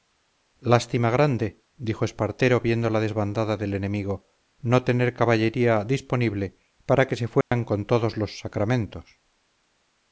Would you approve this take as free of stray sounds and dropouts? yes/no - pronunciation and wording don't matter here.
no